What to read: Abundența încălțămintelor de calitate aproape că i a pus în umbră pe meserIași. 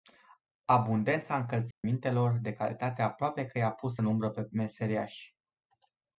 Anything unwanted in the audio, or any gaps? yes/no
yes